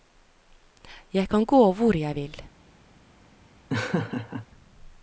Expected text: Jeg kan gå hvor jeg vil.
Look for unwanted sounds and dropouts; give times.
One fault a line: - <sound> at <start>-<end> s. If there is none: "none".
- laugh at 3.7-4.5 s